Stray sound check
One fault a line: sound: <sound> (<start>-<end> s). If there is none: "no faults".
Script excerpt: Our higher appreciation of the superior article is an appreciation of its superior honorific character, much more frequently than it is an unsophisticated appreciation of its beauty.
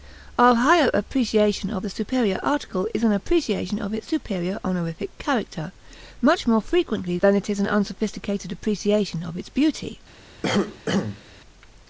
sound: cough (10.4-11.2 s)